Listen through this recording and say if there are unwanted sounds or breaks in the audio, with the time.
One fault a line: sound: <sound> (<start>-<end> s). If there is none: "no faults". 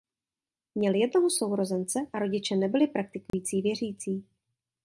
sound: dropout (3.3-3.3 s)